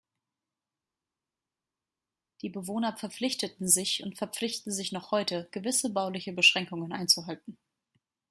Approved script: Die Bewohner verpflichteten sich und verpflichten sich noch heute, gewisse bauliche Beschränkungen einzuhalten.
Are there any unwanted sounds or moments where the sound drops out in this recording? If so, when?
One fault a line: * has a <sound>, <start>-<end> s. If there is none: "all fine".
all fine